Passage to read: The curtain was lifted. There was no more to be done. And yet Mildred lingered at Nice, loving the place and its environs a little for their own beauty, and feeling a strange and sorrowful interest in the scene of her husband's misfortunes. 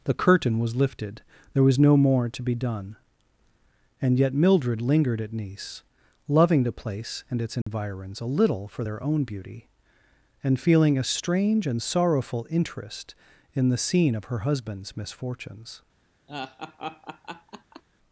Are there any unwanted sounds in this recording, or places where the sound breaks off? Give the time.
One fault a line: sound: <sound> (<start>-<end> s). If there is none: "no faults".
sound: dropout (7.6-7.7 s)
sound: laugh (16.3-17.8 s)